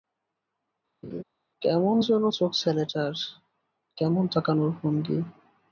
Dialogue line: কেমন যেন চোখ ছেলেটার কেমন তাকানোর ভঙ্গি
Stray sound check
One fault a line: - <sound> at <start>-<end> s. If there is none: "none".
- laugh at 1.0-1.2 s